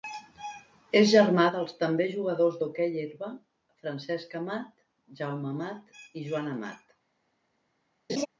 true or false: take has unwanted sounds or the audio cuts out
true